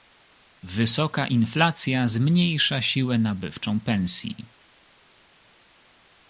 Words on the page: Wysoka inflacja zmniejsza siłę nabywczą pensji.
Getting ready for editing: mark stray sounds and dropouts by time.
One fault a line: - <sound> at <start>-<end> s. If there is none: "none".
none